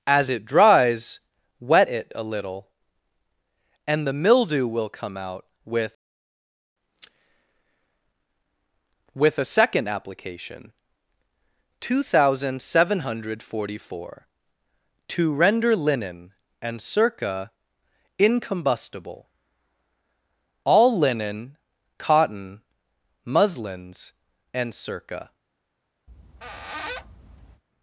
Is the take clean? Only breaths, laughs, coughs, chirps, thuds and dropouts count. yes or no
no